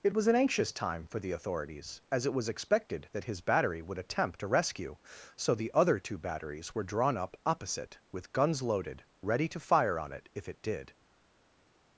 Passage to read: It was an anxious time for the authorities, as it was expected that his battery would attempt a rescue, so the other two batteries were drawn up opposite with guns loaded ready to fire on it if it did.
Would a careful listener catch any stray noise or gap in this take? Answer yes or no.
no